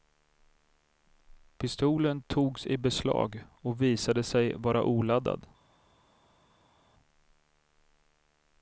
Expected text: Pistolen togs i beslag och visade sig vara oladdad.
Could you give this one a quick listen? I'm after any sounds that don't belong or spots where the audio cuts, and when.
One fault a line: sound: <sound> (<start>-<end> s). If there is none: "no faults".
no faults